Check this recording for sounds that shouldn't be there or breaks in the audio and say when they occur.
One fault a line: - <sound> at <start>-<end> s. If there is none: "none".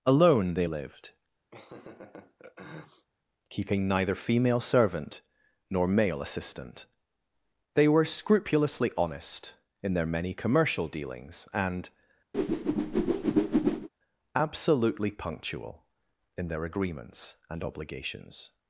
- laugh at 1.5-3.1 s
- whoosh at 12.3-13.9 s